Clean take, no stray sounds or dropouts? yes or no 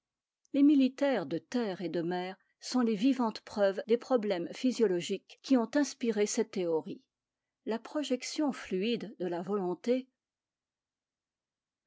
yes